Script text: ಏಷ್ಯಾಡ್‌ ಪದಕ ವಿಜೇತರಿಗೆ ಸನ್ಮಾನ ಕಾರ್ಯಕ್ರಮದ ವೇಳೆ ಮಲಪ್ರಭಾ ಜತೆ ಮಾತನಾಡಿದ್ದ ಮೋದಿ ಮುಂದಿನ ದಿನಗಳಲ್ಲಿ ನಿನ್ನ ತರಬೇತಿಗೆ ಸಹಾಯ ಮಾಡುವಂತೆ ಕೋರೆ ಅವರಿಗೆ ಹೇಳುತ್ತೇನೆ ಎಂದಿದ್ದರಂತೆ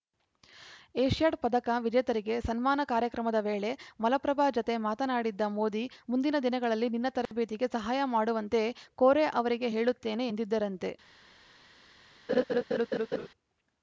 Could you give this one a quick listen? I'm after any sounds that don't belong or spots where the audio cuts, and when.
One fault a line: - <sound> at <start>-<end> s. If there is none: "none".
- dropout at 7.3-7.3 s
- laugh at 12.3-13.3 s